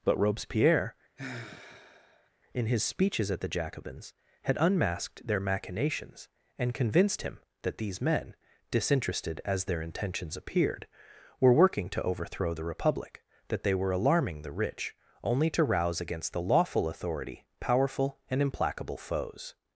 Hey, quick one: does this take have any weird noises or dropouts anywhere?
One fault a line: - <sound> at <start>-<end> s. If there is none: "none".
- sigh at 1.2-2.3 s